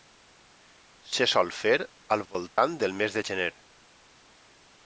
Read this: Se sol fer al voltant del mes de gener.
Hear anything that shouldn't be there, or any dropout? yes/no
yes